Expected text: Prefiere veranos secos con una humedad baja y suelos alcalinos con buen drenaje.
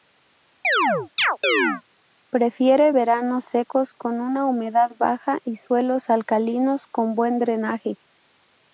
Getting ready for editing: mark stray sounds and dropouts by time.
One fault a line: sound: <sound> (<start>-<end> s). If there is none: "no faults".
sound: chirp (0.6-1.8 s)